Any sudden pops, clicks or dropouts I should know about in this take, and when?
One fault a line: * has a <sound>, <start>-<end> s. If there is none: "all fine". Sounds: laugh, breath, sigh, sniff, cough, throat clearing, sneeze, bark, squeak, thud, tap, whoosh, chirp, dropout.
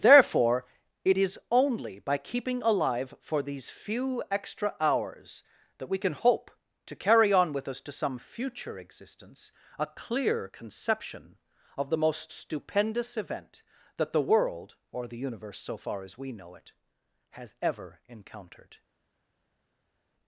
all fine